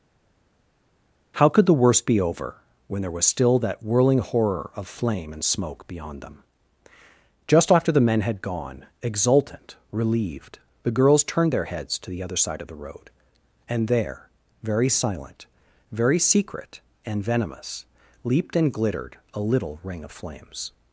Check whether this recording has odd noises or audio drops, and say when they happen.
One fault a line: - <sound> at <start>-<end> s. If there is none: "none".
none